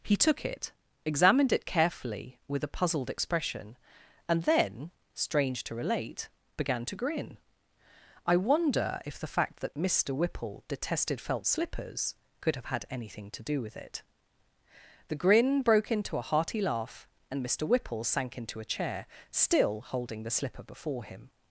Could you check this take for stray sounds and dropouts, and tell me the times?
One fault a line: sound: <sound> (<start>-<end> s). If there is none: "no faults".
no faults